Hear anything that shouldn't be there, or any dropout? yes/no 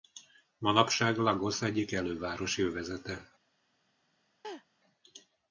yes